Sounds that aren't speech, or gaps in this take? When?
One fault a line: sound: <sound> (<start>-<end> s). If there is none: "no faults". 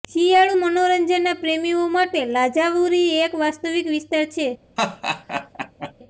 sound: laugh (4.8-5.9 s)